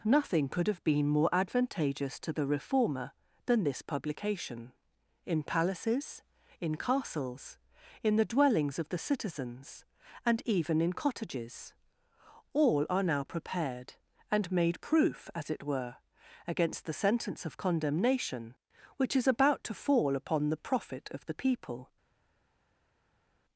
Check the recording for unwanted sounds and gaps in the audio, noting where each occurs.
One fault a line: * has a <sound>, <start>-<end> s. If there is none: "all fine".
all fine